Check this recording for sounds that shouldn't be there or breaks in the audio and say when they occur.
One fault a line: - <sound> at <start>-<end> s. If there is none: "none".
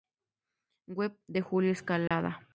- dropout at 2.1-2.1 s